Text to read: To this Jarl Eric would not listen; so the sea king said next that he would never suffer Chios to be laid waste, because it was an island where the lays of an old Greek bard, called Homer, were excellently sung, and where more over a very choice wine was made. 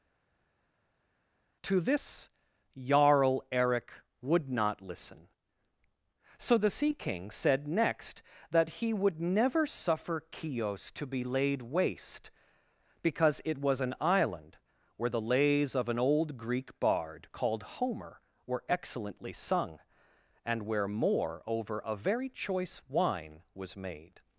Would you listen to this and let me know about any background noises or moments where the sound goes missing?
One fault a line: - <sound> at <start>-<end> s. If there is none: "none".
none